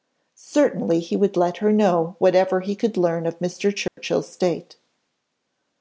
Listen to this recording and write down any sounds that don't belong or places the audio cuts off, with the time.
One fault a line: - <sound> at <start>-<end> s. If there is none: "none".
- dropout at 3.9-4.0 s